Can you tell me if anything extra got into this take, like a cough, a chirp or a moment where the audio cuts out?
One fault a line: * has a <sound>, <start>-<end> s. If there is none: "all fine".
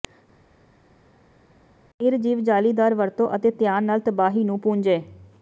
all fine